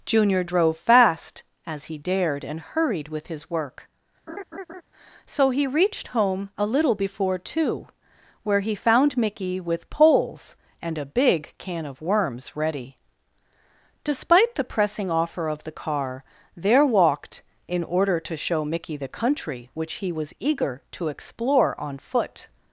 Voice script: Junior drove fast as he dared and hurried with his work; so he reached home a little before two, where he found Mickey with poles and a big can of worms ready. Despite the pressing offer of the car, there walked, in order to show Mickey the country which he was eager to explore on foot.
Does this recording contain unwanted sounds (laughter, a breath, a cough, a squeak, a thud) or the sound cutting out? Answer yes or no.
yes